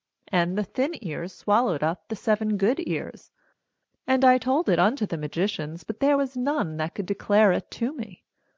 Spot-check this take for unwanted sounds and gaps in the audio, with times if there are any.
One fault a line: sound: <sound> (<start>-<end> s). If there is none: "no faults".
no faults